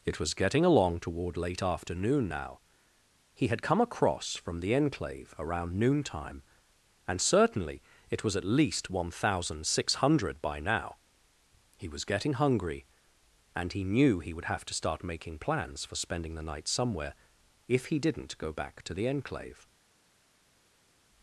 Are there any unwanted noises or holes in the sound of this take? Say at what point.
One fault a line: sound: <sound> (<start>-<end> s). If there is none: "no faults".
no faults